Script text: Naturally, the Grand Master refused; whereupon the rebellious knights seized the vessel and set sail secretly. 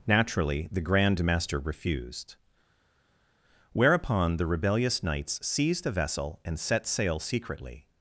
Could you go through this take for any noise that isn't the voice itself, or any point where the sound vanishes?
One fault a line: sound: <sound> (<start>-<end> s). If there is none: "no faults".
no faults